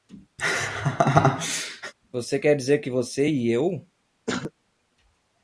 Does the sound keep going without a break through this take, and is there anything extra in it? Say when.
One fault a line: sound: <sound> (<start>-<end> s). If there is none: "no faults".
sound: laugh (0.4-1.9 s)
sound: throat clearing (4.3-4.5 s)